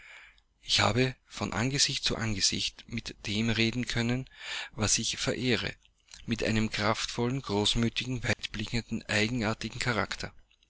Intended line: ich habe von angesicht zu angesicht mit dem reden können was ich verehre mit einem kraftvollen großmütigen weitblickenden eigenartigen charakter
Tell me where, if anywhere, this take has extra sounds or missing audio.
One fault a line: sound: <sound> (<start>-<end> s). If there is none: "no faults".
sound: dropout (8.3-8.4 s)